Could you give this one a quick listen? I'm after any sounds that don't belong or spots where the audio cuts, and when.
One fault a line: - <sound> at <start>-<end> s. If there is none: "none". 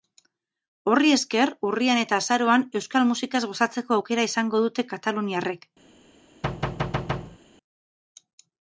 - thud at 6.4-7.4 s